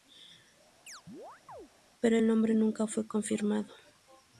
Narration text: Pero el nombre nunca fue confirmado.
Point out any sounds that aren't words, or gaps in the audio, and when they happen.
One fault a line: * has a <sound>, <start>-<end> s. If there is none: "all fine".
* has a chirp, 0.9-1.7 s